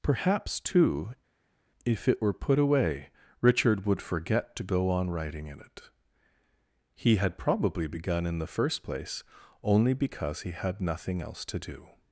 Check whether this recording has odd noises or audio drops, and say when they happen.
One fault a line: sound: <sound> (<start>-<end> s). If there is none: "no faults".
no faults